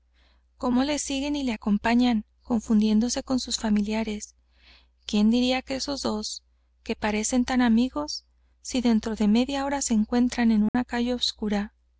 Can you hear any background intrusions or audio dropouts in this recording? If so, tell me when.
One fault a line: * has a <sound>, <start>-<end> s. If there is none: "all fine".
* has a dropout, 10.7-10.7 s